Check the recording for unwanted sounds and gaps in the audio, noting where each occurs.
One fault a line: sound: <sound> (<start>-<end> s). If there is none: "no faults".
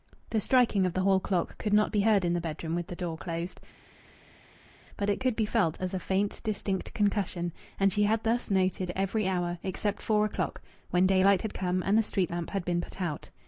no faults